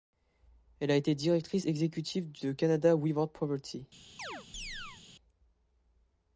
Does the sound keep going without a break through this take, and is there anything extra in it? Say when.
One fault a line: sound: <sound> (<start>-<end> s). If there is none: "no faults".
sound: chirp (4.2-5.0 s)